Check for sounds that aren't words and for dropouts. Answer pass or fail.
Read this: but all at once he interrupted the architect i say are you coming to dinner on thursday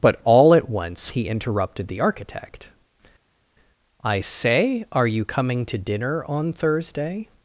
pass